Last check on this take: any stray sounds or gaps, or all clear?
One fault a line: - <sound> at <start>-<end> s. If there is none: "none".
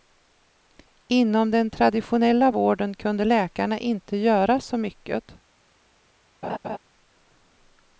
- laugh at 6.4-6.8 s